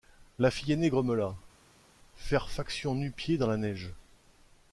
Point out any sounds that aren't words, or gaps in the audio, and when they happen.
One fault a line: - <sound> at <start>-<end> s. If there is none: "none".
none